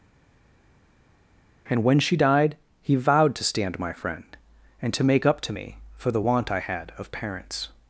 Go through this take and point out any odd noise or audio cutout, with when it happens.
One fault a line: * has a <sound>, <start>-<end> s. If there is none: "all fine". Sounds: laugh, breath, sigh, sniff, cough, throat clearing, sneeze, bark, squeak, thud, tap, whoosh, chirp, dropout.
all fine